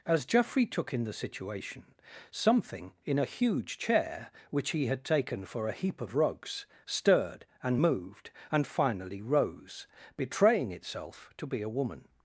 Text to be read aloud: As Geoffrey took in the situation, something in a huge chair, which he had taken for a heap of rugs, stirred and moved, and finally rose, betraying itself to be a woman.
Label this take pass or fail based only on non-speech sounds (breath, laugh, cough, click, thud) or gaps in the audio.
pass